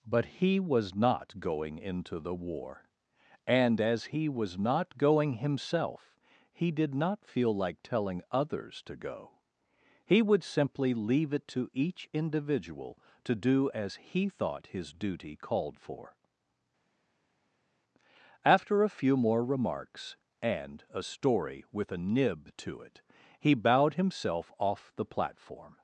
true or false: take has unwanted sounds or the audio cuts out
false